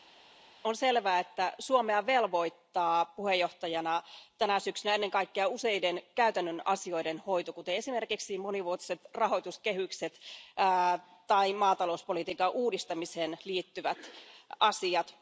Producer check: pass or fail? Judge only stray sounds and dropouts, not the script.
pass